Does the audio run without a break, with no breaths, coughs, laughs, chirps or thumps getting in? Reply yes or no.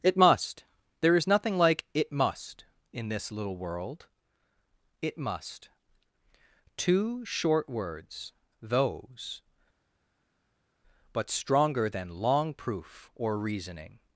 yes